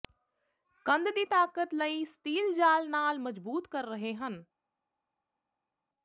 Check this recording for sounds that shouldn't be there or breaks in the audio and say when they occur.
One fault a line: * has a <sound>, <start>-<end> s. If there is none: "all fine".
all fine